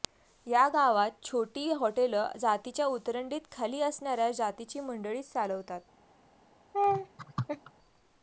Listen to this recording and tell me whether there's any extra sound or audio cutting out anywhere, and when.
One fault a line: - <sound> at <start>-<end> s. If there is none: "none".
- laugh at 6.7-7.7 s